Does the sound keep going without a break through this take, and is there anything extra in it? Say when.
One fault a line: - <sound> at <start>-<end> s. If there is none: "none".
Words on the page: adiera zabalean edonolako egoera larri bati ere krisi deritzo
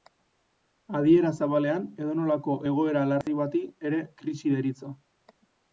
- dropout at 3.2-3.3 s